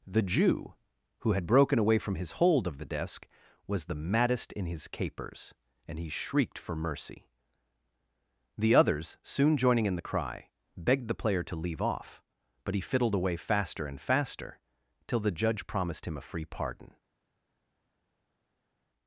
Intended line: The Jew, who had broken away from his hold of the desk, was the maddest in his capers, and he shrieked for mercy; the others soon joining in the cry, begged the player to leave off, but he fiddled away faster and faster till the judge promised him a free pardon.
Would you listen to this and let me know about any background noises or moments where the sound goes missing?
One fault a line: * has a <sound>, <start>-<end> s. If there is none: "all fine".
all fine